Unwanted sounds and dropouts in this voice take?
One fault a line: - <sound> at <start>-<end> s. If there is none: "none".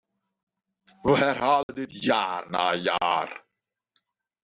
- dropout at 1.6-1.7 s